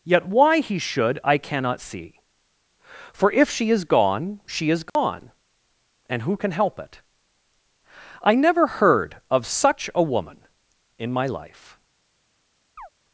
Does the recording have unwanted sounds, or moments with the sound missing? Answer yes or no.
yes